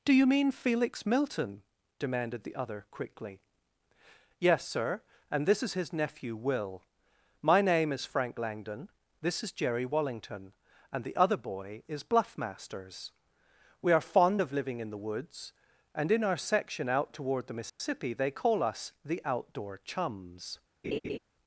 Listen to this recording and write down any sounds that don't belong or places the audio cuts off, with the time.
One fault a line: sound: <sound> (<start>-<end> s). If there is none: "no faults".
sound: dropout (17.7-17.8 s)
sound: laugh (20.8-21.2 s)